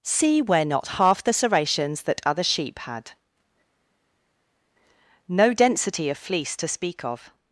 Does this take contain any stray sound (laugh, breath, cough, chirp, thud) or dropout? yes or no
no